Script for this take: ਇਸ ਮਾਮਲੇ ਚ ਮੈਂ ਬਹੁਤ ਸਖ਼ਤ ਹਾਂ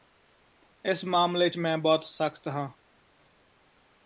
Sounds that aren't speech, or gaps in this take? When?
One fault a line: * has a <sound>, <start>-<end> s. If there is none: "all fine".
all fine